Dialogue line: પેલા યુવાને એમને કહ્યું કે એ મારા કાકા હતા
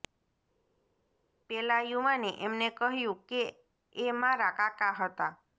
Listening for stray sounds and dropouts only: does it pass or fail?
pass